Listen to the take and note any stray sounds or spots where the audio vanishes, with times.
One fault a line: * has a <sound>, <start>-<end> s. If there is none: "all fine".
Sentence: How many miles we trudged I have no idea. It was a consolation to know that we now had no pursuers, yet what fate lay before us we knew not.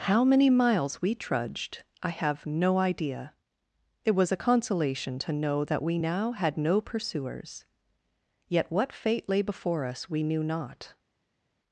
all fine